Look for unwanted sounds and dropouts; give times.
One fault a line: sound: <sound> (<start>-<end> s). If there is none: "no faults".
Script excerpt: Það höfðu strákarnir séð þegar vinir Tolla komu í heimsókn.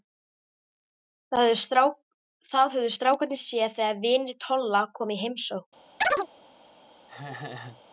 sound: chirp (6.0-6.3 s)
sound: laugh (7.1-7.8 s)